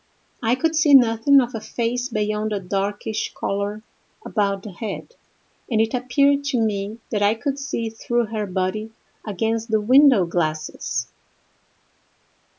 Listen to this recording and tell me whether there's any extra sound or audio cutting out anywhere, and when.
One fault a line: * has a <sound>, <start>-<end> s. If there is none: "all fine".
all fine